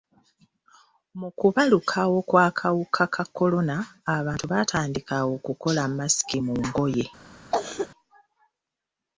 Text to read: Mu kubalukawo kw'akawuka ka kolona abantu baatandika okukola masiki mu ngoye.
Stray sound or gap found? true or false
true